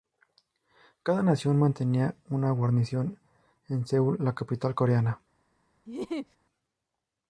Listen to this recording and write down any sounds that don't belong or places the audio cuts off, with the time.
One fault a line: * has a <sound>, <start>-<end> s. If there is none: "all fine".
* has a laugh, 5.9-6.4 s